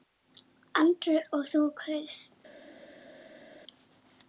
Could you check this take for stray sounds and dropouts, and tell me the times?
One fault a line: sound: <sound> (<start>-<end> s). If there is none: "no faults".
no faults